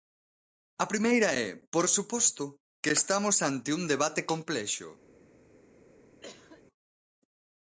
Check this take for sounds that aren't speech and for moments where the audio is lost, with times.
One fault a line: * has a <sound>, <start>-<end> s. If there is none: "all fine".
* has a cough, 6.2-6.6 s